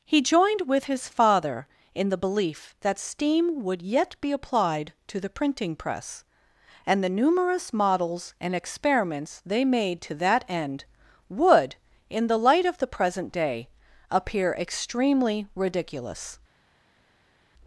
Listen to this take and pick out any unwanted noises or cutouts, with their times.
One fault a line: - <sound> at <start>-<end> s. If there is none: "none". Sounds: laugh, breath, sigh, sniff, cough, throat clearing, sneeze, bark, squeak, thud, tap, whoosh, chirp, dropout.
none